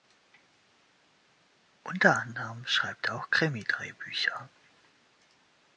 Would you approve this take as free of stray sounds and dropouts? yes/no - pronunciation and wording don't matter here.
yes